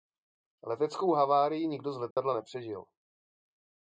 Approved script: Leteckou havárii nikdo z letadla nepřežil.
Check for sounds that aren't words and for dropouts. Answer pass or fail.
fail